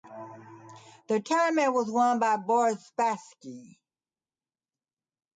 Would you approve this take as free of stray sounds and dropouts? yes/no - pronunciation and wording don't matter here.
yes